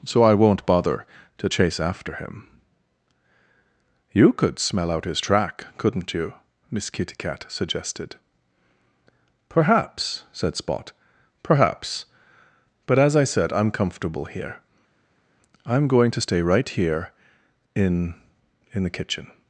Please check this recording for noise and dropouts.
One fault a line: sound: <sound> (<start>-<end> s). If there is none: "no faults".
no faults